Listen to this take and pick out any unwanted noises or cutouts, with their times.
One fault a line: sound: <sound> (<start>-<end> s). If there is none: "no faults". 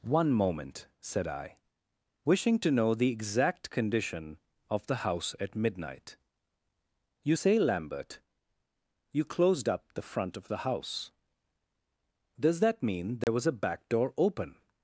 sound: dropout (13.2-13.3 s)